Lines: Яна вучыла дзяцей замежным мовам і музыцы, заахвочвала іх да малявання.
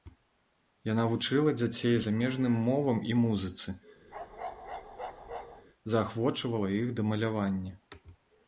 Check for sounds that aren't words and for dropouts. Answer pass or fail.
fail